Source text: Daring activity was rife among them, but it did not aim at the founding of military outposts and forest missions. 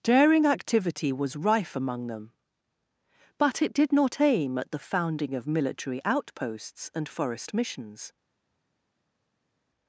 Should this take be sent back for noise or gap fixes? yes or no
no